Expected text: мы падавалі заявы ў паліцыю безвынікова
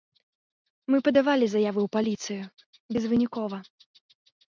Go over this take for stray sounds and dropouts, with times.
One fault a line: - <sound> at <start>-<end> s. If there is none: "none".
none